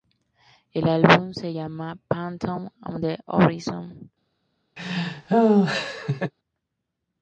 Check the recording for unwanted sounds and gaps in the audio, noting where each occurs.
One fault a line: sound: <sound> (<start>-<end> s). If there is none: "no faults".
sound: laugh (4.8-6.3 s)